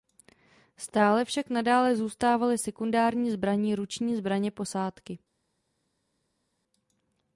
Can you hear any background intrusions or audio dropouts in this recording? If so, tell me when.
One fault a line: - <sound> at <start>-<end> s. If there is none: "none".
none